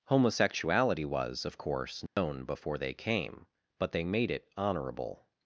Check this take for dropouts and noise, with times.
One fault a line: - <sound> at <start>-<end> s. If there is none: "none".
- dropout at 2.1-2.2 s